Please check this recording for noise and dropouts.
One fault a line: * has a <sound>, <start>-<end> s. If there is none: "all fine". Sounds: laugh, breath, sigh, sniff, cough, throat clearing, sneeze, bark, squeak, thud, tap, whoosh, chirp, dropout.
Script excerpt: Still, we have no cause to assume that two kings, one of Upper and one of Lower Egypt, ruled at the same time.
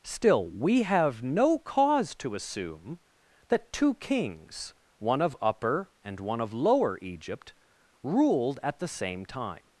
all fine